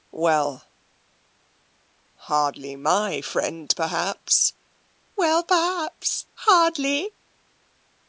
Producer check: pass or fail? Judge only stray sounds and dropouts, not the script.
pass